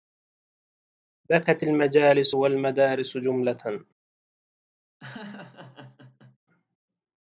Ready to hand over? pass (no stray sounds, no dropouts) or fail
fail